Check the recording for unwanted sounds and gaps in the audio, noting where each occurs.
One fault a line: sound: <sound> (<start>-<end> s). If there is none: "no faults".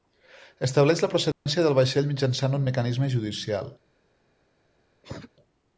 sound: dropout (1.3-1.5 s)
sound: cough (5.0-5.3 s)